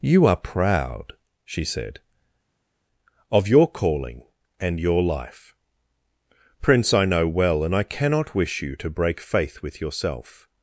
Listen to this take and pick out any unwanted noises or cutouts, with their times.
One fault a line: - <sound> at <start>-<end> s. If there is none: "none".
none